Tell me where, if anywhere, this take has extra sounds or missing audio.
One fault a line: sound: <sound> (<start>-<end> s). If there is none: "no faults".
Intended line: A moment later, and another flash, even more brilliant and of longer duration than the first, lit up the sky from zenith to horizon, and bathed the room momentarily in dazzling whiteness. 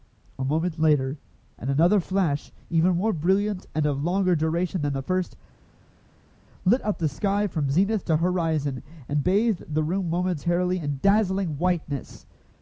no faults